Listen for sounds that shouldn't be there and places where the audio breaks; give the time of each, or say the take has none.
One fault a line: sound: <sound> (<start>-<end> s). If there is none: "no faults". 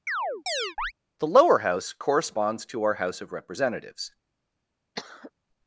sound: chirp (0.1-0.9 s)
sound: cough (5.0-5.3 s)